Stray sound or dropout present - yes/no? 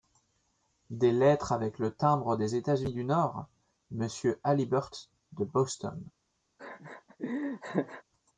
yes